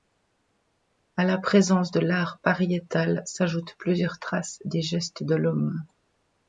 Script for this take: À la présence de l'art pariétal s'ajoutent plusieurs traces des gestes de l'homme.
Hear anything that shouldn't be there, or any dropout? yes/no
no